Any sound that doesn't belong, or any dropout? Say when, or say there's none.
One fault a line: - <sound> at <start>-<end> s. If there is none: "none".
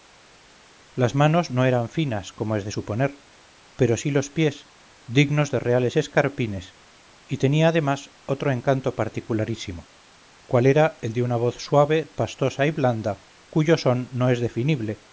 none